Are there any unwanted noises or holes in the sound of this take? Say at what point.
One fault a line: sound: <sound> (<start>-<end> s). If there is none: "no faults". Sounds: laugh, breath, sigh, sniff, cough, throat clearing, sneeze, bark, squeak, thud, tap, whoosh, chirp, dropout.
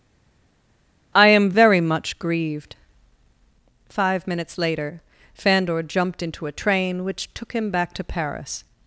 no faults